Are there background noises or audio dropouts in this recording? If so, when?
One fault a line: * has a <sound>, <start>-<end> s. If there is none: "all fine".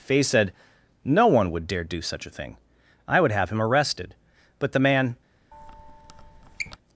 * has a squeak, 5.5-6.8 s